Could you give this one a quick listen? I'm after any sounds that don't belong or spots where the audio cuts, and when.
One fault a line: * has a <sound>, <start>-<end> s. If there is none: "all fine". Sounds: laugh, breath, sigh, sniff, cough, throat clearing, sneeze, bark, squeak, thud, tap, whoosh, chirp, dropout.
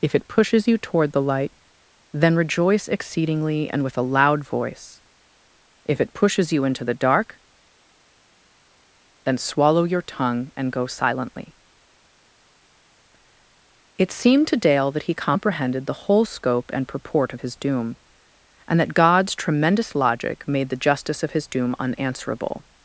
all fine